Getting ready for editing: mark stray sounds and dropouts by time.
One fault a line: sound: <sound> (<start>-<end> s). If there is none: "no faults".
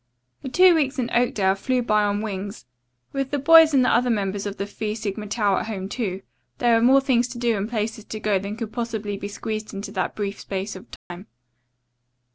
sound: dropout (11.0-11.1 s)